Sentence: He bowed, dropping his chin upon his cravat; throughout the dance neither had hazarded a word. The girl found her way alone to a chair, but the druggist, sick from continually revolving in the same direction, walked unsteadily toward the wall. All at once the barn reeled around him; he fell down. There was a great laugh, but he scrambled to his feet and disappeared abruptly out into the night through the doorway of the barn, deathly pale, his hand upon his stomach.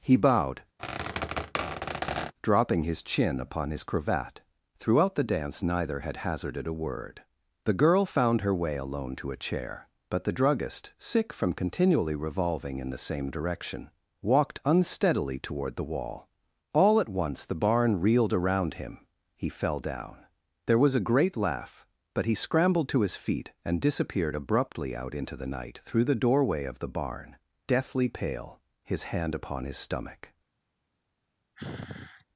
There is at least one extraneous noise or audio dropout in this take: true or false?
true